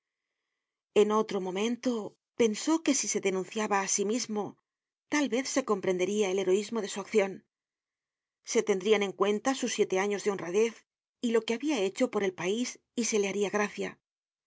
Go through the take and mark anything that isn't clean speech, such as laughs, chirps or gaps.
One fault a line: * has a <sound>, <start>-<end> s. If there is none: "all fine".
all fine